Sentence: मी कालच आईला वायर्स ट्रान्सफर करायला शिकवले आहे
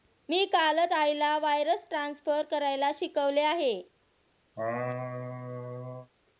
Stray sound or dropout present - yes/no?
yes